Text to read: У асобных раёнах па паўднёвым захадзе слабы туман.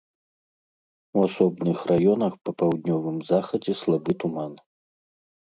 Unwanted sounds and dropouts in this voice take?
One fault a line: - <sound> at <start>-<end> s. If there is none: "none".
none